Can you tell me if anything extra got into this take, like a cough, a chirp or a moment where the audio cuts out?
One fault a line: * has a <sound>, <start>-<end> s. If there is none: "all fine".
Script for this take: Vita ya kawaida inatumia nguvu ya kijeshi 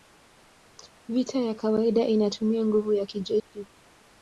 * has a dropout, 3.4-3.5 s